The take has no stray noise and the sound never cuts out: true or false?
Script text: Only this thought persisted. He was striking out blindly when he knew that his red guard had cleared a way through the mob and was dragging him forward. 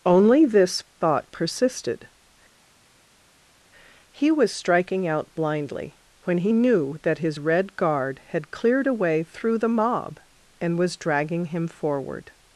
true